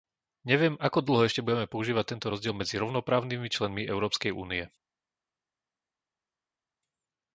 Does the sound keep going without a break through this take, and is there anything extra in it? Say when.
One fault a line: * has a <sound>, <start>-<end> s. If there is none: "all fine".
all fine